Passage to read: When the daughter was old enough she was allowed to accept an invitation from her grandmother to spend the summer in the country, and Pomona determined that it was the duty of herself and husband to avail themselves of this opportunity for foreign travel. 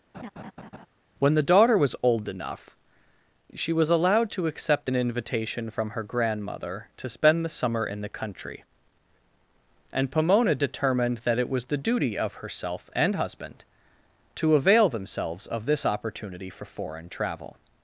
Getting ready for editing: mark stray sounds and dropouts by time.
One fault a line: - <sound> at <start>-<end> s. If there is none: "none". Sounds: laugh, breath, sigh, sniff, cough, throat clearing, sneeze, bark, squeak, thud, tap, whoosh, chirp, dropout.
- laugh at 0.1-0.9 s